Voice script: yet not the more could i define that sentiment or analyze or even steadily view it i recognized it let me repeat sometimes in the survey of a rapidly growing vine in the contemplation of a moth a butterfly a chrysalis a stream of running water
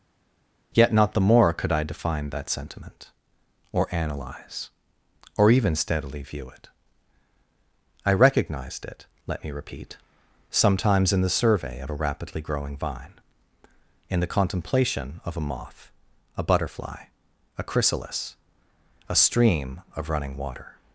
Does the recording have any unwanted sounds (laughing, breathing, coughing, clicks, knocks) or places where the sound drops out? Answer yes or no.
no